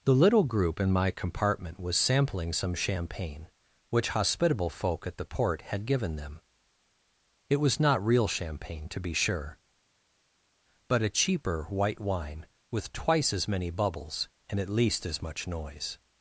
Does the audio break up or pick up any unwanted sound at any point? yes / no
no